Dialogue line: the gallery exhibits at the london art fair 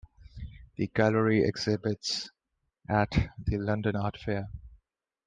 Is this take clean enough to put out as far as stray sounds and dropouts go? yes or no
yes